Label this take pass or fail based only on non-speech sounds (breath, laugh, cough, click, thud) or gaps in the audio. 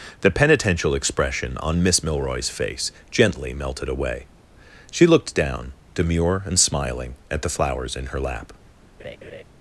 fail